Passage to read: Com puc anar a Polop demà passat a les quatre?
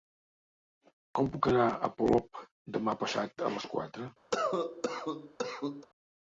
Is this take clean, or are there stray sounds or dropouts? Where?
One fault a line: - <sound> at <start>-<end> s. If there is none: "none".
- cough at 4.3-5.9 s